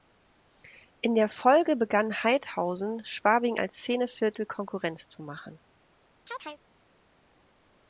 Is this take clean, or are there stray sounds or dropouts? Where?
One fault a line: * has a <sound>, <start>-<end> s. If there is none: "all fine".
* has a chirp, 6.3-6.6 s